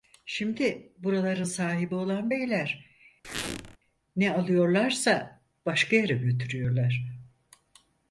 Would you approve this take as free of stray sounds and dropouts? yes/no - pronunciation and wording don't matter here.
no